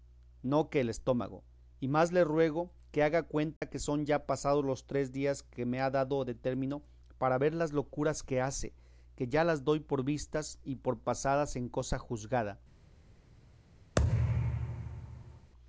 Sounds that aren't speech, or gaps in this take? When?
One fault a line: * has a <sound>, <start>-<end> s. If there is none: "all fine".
* has a dropout, 3.6-3.6 s
* has a thud, 14.0-15.5 s